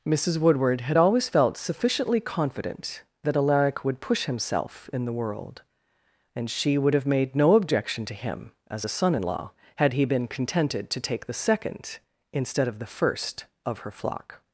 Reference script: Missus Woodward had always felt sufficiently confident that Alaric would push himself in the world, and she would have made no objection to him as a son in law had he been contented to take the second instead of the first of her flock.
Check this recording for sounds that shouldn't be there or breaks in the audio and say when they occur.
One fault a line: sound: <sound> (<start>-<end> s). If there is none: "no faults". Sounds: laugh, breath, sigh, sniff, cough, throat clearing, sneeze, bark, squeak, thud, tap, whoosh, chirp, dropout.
no faults